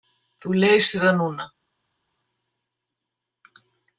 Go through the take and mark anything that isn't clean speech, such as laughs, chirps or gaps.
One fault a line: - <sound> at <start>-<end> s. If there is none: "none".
none